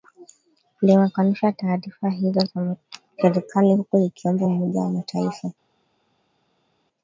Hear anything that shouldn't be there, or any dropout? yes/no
no